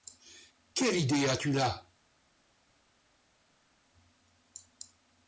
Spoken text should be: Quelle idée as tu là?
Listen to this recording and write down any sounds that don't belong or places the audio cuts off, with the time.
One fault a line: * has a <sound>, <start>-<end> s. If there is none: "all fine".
all fine